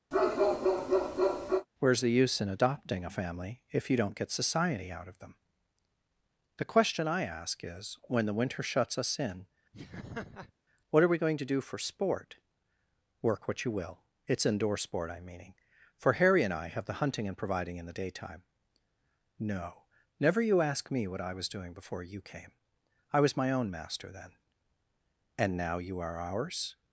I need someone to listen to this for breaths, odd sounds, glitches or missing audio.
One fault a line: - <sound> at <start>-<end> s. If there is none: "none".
- bark at 0.1-1.7 s
- laugh at 9.7-10.5 s